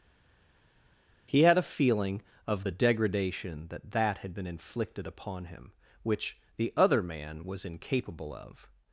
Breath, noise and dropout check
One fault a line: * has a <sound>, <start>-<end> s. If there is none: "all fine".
all fine